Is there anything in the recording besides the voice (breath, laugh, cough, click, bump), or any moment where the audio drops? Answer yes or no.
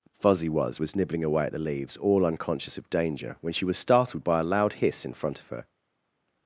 no